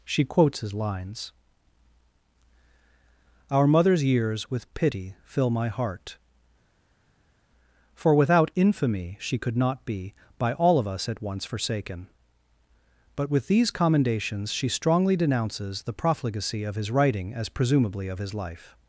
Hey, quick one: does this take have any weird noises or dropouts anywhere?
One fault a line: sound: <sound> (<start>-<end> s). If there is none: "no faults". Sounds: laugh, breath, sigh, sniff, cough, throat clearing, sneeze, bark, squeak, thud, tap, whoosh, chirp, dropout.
no faults